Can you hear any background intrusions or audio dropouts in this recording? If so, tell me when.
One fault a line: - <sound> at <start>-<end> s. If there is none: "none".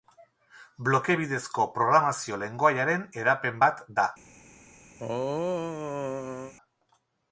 - throat clearing at 5.0-6.5 s